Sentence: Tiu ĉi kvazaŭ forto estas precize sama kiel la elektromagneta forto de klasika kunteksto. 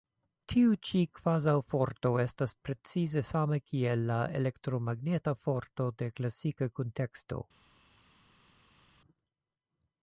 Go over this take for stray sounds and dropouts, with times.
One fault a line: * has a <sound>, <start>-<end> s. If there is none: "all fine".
all fine